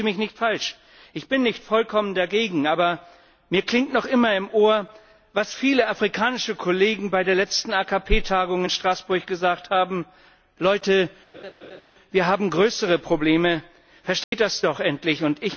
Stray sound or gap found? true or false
true